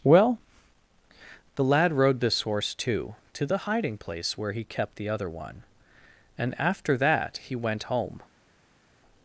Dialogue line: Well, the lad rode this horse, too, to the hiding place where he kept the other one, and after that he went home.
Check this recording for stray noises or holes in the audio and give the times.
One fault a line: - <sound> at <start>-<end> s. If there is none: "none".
none